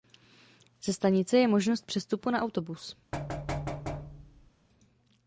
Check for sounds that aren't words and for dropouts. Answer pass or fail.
fail